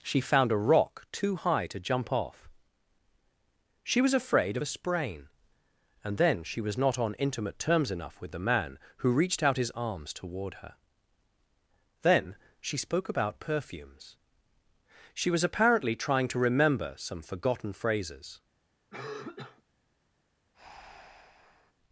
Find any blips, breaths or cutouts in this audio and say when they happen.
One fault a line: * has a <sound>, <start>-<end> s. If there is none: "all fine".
* has a cough, 18.9-19.6 s
* has a breath, 20.5-21.7 s